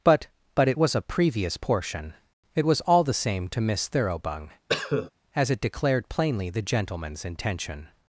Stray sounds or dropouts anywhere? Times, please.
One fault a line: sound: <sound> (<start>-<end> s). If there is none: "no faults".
sound: cough (4.7-5.1 s)